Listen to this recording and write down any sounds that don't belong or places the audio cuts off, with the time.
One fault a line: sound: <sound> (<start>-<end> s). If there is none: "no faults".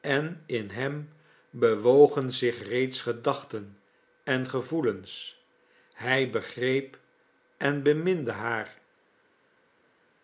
no faults